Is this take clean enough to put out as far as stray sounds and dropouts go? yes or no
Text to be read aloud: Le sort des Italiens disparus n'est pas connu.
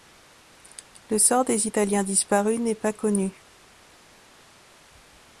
yes